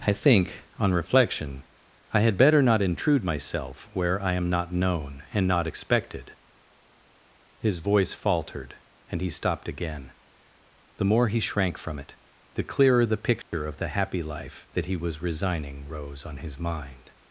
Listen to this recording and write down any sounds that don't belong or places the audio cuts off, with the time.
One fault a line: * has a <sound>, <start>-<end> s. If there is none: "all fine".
* has a dropout, 13.4-13.5 s